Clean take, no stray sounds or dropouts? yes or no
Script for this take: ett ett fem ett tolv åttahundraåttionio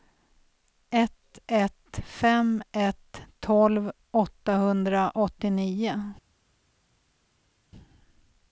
yes